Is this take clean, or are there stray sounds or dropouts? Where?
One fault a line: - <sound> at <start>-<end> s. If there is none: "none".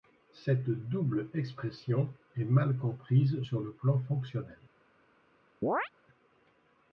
- chirp at 5.6-5.9 s